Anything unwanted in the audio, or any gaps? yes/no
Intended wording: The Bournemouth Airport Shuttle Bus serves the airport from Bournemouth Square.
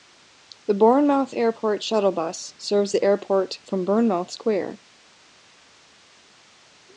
no